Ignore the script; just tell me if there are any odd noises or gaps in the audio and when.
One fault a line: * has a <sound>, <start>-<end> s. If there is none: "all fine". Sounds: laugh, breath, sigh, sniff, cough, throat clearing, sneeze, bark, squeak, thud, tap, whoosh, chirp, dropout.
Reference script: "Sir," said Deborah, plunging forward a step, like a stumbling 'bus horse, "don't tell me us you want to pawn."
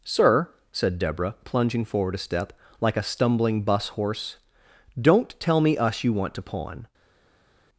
all fine